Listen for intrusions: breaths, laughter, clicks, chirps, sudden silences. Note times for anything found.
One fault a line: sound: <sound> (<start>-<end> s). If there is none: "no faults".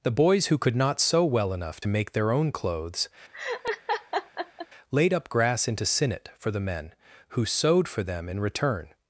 sound: laugh (3.3-4.7 s)